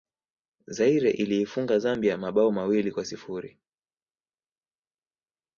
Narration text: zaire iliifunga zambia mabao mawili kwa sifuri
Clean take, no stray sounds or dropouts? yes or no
yes